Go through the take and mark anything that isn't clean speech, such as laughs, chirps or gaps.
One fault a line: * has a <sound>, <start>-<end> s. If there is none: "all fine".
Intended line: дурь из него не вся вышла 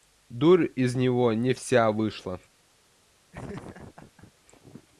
* has a laugh, 3.3-4.3 s